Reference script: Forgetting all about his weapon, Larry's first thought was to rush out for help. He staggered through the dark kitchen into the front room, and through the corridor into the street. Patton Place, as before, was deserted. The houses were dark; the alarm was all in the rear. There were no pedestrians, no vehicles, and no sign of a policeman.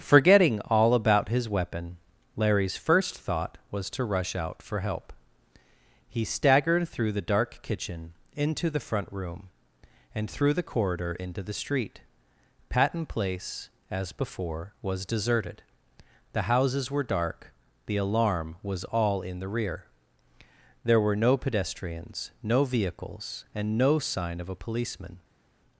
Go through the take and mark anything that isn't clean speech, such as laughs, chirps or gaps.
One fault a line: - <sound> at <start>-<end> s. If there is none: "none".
none